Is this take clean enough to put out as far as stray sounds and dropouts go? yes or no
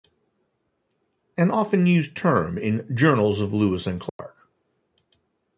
no